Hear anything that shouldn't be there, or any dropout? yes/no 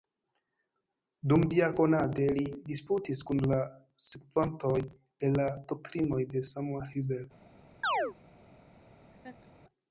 yes